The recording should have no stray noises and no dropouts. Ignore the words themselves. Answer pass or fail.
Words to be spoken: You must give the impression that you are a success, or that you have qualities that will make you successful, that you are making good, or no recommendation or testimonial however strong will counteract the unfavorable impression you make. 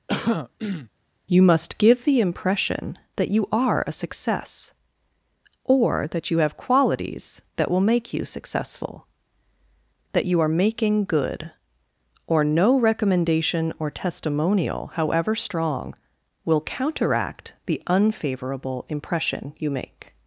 fail